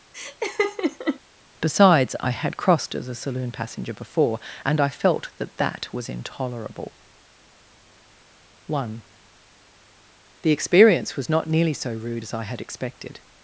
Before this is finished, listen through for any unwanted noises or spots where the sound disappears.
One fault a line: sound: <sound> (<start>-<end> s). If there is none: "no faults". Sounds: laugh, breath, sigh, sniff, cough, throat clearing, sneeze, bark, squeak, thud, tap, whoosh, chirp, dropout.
sound: laugh (0.1-1.2 s)